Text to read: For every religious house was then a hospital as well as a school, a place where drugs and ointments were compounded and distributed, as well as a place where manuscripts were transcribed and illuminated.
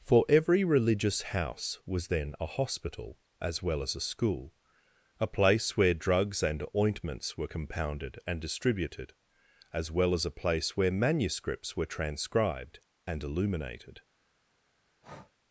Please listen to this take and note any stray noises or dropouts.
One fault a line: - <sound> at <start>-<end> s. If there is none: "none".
- breath at 15.0-15.3 s